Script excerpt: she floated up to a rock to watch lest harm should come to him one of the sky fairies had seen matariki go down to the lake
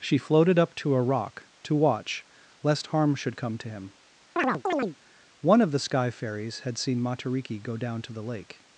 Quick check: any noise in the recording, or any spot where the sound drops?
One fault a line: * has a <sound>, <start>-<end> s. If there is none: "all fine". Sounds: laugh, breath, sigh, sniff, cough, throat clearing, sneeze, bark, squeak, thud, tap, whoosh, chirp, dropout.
* has a chirp, 4.4-5.0 s